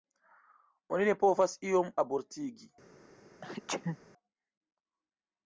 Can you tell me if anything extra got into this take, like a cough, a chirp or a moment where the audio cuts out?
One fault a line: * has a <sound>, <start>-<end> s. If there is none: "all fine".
* has a sneeze, 3.4-4.0 s